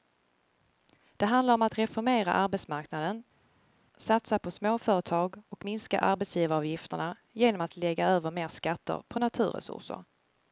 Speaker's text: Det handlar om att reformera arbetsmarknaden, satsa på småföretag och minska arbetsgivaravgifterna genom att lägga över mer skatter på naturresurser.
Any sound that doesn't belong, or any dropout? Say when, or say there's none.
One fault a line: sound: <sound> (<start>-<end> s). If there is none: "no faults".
no faults